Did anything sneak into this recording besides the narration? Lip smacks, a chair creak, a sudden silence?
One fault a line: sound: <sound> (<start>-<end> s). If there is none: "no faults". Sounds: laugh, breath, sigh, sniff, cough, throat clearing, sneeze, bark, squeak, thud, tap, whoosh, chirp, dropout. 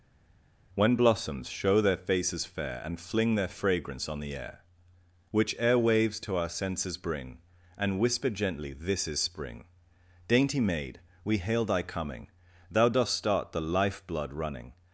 no faults